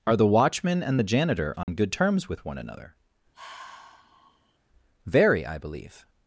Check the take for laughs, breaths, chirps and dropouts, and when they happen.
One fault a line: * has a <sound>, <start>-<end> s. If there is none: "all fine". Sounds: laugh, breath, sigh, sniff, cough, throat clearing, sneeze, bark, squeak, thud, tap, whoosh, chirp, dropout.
* has a dropout, 1.6-1.7 s
* has a sigh, 3.3-4.6 s